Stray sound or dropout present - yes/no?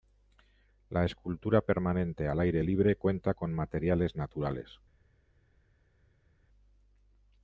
no